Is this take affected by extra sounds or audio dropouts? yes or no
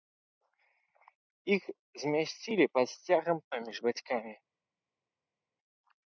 no